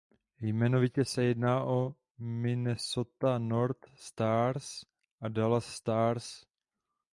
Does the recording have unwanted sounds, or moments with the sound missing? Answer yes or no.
no